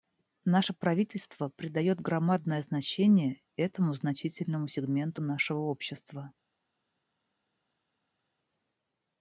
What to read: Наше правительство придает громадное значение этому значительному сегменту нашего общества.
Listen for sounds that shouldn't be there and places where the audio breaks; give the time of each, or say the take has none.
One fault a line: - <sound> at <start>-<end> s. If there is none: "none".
none